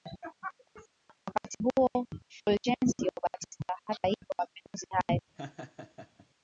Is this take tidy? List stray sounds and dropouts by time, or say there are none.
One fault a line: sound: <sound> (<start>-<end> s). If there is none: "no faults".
sound: laugh (5.4-6.3 s)